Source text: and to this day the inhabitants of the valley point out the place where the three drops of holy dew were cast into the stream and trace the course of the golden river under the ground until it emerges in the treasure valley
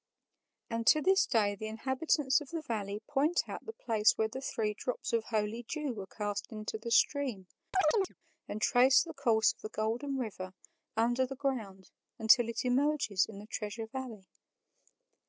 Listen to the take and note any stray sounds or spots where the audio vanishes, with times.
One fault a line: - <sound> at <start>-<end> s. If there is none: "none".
- chirp at 7.7-8.1 s